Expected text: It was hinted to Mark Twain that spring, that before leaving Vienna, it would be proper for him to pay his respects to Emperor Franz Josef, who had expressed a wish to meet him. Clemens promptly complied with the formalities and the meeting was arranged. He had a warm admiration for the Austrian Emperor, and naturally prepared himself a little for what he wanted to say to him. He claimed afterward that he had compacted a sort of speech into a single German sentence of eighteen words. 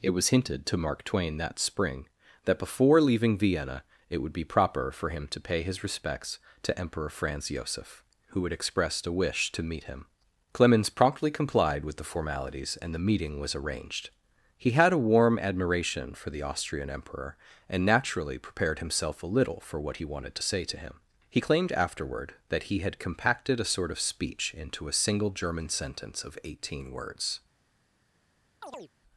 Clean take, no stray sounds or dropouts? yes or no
no